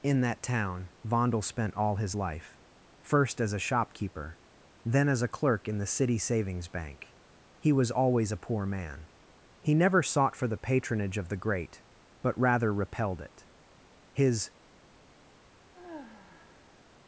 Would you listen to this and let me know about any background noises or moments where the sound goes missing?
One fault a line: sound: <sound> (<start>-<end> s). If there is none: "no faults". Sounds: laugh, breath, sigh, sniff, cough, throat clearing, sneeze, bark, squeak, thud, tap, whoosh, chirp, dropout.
sound: sigh (15.7-16.8 s)